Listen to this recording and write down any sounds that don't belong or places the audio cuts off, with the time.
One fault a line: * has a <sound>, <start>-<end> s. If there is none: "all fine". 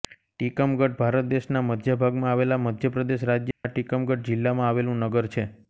* has a dropout, 3.5-3.6 s